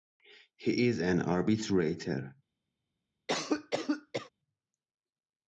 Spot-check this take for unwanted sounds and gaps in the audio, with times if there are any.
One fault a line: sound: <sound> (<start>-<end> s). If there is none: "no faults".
sound: cough (3.3-4.3 s)